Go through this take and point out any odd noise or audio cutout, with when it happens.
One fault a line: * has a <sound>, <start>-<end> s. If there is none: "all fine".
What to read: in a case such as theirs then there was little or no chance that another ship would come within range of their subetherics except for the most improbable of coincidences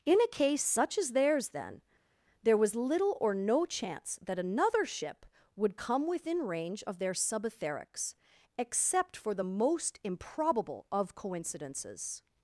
all fine